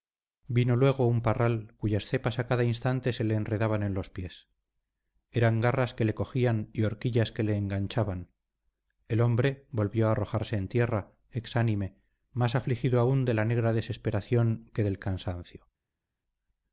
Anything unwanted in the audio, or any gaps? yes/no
no